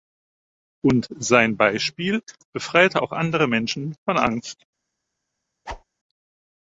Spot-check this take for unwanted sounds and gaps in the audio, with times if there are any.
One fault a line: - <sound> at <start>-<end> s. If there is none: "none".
- whoosh at 5.7-5.8 s